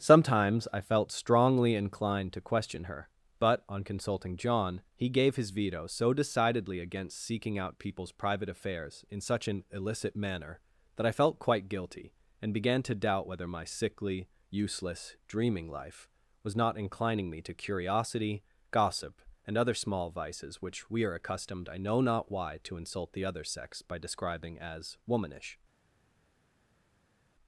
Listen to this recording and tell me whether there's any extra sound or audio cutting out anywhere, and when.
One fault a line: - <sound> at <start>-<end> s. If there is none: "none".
none